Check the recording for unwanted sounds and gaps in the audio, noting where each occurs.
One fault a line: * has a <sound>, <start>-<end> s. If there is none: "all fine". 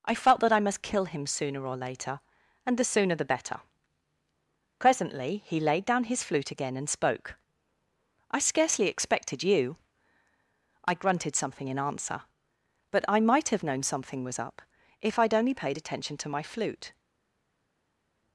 all fine